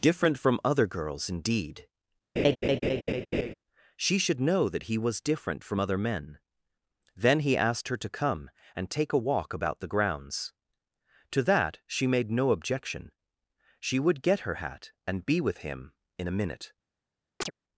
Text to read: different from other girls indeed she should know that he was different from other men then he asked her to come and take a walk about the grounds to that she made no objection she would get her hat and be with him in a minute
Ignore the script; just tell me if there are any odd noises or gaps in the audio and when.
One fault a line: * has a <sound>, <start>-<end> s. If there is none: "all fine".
* has a laugh, 2.4-3.5 s
* has a chirp, 17.4-17.5 s